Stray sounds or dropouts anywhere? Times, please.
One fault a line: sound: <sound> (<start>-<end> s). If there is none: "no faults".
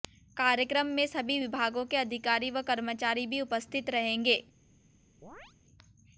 sound: chirp (5.2-5.5 s)